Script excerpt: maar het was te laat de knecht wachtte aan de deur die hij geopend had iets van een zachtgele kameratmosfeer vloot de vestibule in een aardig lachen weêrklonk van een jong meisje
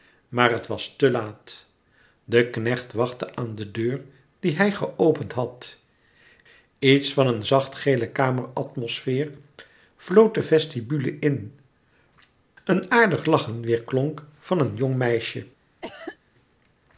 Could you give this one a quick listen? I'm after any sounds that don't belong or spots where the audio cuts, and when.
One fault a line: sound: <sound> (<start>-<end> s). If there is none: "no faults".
sound: cough (15.8-16.2 s)